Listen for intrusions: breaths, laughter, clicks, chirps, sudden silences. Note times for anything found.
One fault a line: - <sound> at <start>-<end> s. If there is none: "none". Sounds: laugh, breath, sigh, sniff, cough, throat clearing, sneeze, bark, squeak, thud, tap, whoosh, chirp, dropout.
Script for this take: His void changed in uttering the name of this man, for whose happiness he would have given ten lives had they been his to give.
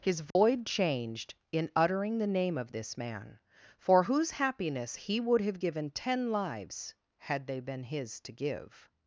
- dropout at 0.3-0.4 s